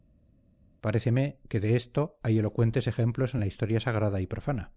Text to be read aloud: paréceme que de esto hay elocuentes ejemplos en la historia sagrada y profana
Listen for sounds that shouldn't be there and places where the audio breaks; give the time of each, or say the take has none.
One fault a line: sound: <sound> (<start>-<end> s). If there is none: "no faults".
no faults